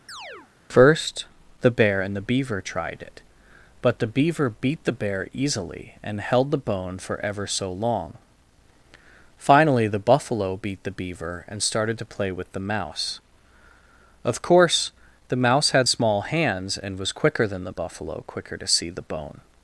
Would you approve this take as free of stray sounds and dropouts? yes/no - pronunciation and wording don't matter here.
no